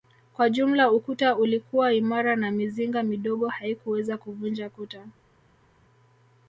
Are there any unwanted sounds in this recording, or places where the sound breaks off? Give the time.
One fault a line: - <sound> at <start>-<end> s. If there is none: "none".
none